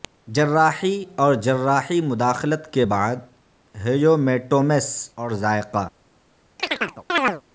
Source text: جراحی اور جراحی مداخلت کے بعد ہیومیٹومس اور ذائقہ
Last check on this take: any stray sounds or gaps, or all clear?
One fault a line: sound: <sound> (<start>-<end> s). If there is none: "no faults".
sound: chirp (6.6-7.4 s)